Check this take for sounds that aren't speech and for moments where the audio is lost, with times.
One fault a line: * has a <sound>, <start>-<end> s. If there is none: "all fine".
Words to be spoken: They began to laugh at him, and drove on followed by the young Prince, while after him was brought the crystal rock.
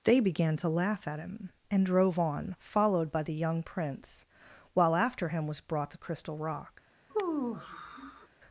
* has a sigh, 7.1-8.3 s